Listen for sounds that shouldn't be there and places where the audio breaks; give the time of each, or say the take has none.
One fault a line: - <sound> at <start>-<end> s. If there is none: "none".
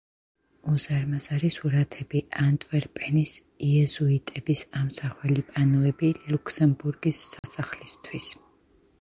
- dropout at 7.4-7.4 s